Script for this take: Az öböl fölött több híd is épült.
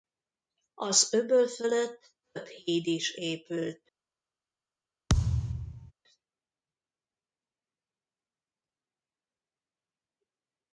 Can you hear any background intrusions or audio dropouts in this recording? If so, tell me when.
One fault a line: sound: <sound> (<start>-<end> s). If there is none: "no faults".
sound: thud (5.1-5.9 s)